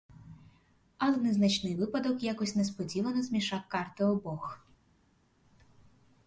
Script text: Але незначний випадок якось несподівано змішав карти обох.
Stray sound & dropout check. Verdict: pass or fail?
pass